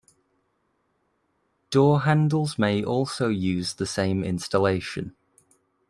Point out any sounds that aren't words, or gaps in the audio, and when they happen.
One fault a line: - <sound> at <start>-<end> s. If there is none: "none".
none